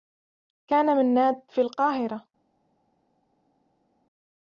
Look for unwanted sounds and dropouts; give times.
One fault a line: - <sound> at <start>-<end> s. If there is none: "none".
none